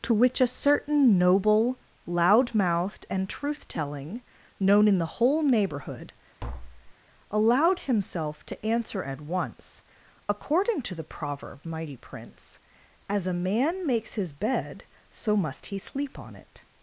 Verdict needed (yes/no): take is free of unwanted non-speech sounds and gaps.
no